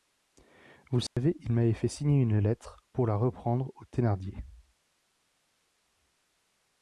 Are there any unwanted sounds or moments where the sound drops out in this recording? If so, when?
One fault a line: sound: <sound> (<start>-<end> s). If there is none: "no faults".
sound: dropout (1.1-1.2 s)